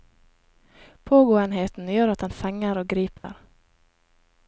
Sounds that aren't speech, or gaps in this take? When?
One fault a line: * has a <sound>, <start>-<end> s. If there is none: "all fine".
* has a dropout, 3.2-3.2 s